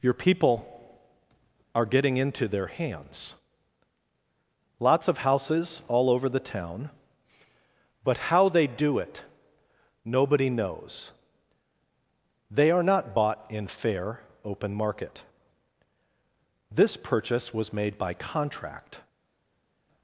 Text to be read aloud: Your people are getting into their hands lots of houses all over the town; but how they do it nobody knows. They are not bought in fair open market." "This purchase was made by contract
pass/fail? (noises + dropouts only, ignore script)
pass